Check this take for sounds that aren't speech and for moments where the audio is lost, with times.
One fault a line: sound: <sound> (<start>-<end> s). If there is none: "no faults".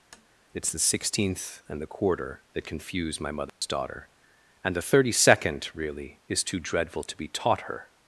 sound: tap (0.1-0.3 s)
sound: dropout (3.5-3.6 s)